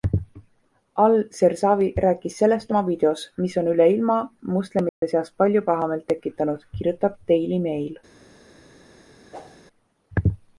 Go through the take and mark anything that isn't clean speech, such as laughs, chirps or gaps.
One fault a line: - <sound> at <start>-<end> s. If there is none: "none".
- dropout at 4.9-5.0 s
- whoosh at 9.3-9.6 s